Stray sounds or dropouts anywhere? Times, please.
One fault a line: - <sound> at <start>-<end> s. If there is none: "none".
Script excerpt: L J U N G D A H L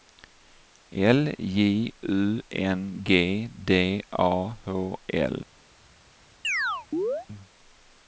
- chirp at 6.4-7.3 s